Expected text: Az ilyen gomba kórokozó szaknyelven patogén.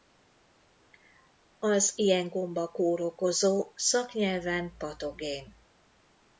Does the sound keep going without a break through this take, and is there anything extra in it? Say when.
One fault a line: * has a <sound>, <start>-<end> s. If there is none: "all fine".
all fine